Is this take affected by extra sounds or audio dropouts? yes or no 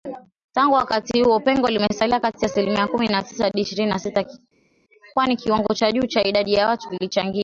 no